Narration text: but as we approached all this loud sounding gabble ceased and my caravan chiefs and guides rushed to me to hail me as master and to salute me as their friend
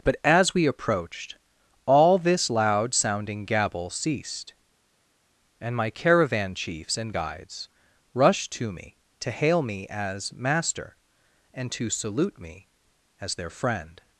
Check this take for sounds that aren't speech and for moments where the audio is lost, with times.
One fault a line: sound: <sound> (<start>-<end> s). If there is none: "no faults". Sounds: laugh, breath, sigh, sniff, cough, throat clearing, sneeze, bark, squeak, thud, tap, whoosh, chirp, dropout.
no faults